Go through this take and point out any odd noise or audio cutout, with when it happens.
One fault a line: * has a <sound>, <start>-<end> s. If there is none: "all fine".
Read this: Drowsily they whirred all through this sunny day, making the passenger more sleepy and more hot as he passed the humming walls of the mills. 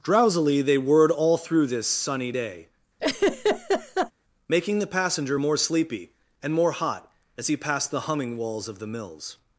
* has a laugh, 3.0-4.1 s